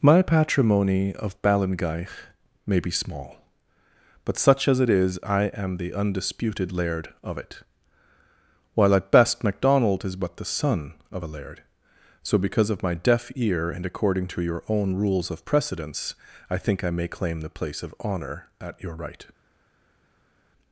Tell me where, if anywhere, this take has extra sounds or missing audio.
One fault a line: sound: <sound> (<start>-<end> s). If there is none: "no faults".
no faults